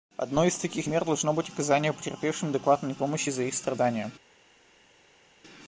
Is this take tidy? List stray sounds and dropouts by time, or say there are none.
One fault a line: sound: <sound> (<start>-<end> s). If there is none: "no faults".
no faults